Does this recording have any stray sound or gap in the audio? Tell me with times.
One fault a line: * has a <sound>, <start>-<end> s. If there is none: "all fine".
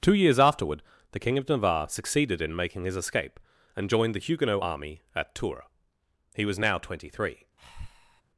* has a breath, 7.6-8.2 s